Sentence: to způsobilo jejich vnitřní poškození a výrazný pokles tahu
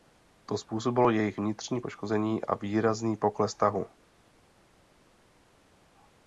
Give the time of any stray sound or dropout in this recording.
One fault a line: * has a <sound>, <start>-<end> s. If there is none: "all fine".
all fine